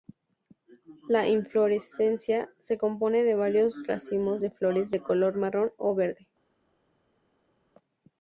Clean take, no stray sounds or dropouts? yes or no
yes